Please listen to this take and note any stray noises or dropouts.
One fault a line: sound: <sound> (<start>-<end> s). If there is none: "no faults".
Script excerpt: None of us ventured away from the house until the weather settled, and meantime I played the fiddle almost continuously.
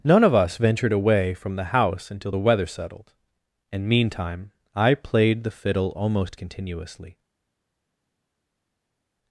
no faults